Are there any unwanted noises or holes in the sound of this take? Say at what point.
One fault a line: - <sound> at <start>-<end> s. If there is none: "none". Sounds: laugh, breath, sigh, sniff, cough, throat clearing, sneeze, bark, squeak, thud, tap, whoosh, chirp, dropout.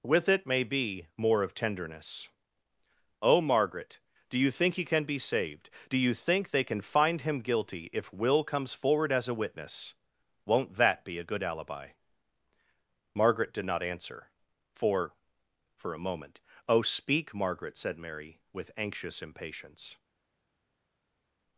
none